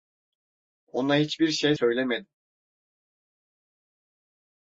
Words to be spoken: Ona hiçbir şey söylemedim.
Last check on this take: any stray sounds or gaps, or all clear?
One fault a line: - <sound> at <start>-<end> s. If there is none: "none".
none